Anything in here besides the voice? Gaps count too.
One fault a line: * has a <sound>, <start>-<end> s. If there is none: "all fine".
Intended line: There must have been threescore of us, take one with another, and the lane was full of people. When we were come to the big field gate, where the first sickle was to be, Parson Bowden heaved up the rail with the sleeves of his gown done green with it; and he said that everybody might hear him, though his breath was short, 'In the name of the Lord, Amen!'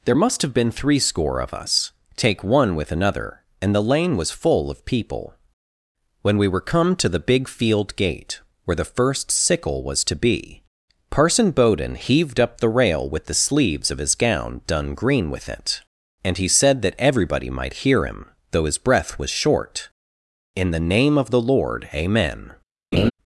* has a laugh, 22.9-23.1 s